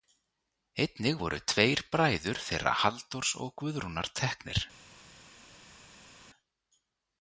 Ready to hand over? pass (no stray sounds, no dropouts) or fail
pass